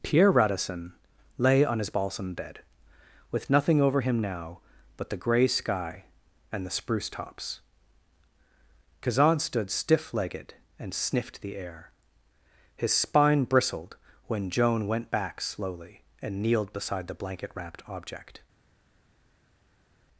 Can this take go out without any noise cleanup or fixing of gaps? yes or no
yes